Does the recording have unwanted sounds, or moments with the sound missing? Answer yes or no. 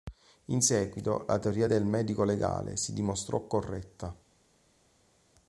no